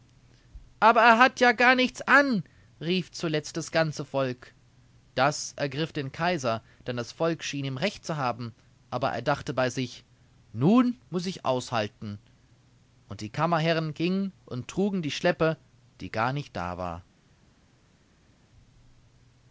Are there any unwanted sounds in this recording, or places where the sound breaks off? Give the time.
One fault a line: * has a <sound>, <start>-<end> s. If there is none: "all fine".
all fine